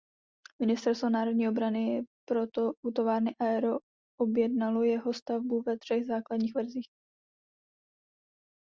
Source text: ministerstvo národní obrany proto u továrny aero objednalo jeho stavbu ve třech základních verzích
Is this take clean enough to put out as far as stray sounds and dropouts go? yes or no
yes